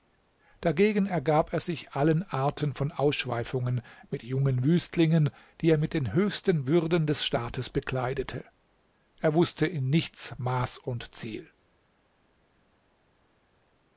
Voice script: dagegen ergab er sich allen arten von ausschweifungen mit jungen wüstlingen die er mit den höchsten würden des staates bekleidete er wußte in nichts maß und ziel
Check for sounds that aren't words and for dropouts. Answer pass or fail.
pass